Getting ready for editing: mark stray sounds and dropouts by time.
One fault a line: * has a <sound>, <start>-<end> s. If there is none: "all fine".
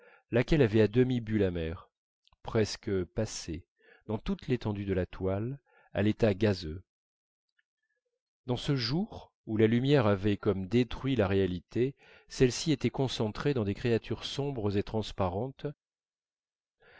all fine